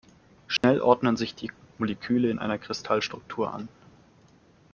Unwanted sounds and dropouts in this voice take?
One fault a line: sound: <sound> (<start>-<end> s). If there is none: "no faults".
sound: dropout (0.6-0.6 s)